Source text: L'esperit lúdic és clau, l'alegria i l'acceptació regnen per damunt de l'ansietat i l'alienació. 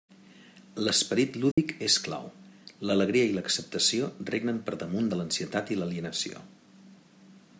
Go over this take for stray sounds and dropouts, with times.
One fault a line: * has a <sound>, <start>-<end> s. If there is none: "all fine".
* has a dropout, 1.5-1.6 s